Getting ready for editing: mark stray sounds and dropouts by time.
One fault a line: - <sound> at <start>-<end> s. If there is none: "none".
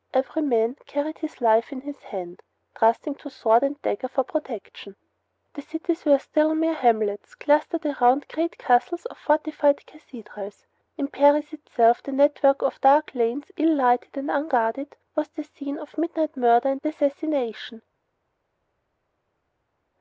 none